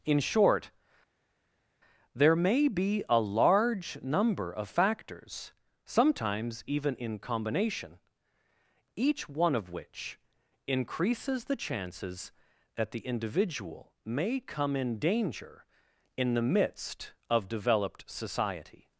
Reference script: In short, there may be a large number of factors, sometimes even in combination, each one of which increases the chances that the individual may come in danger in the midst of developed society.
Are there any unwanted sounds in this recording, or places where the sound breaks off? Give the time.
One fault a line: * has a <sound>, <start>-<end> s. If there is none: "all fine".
all fine